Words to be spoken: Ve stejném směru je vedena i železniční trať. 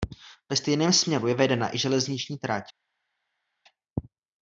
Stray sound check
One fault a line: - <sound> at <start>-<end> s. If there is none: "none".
none